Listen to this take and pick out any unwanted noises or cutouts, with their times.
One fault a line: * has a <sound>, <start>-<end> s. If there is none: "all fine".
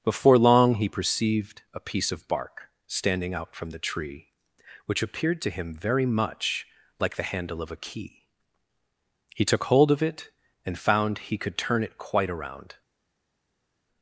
all fine